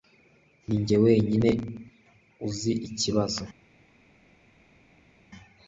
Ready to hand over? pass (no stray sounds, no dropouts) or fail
pass